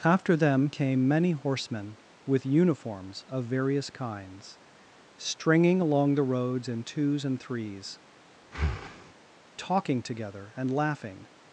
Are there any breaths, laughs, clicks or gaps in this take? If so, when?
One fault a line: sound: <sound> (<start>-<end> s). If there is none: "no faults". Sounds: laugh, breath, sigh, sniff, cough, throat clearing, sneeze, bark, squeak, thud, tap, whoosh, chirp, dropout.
sound: breath (8.4-9.1 s)